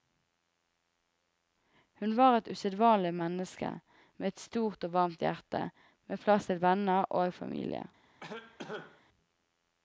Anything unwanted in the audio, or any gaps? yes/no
yes